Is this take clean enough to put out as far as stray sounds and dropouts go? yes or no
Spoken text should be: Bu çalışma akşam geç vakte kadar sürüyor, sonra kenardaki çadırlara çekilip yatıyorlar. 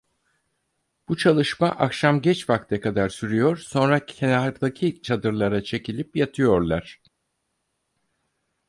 yes